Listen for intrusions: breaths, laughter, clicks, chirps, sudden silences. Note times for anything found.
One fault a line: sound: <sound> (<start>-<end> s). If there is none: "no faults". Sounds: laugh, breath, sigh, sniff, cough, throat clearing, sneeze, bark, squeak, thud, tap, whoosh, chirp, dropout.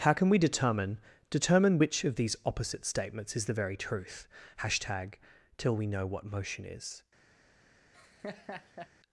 sound: laugh (7.9-8.9 s)